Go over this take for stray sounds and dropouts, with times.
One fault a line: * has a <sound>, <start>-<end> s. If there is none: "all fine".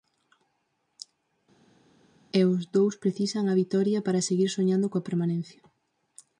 all fine